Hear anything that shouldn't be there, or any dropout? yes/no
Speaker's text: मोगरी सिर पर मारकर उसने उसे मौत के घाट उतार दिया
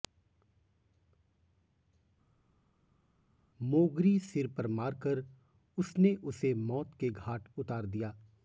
no